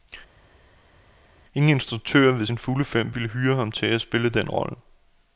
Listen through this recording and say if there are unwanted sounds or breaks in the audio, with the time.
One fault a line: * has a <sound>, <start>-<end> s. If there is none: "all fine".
all fine